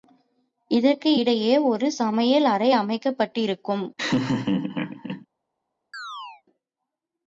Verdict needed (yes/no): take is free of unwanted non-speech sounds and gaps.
no